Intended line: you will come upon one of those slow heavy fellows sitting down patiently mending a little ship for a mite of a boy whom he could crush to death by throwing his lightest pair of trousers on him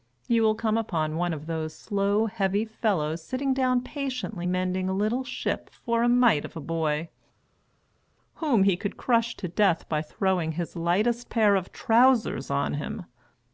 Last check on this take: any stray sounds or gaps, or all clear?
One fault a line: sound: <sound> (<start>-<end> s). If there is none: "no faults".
no faults